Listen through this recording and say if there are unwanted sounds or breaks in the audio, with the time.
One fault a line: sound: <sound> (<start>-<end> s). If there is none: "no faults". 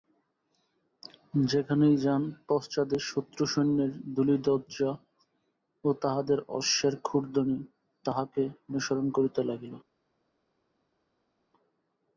no faults